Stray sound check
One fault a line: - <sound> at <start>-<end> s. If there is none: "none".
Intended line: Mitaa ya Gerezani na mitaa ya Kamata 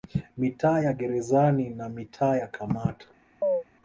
- chirp at 3.4-3.6 s